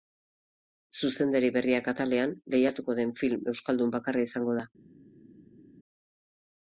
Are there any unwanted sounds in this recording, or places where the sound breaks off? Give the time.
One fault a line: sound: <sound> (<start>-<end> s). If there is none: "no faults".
no faults